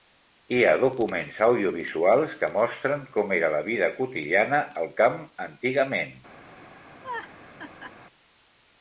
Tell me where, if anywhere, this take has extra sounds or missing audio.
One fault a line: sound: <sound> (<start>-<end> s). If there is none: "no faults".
sound: laugh (7.0-7.9 s)